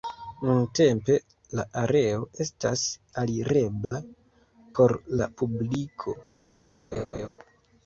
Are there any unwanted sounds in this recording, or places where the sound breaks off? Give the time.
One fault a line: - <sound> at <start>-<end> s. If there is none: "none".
- dropout at 3.8-3.9 s
- laugh at 6.9-7.3 s